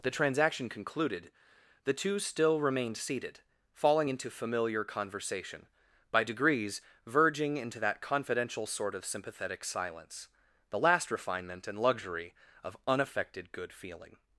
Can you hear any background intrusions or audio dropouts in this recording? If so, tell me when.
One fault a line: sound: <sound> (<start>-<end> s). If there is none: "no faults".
no faults